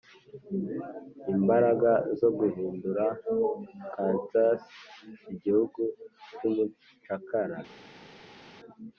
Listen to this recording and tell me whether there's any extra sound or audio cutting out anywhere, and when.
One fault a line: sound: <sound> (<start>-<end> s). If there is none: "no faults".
no faults